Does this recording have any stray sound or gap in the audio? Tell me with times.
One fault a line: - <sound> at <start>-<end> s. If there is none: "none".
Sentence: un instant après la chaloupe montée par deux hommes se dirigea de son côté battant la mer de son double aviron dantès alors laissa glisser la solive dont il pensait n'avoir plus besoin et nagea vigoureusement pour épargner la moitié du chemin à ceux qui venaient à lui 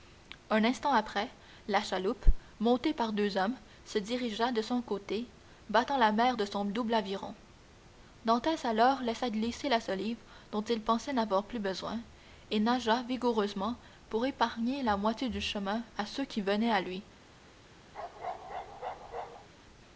- bark at 17.9-19.5 s